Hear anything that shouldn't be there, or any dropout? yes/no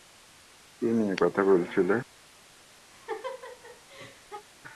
yes